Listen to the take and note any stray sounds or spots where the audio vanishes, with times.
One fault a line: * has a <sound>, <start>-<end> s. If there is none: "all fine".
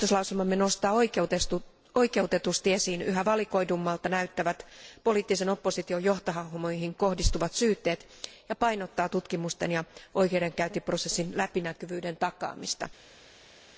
all fine